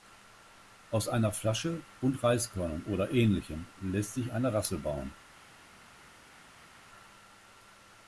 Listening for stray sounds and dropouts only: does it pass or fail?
pass